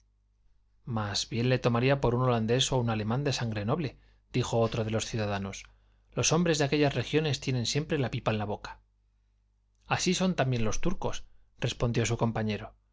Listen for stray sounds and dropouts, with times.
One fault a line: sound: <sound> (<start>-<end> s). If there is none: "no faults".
no faults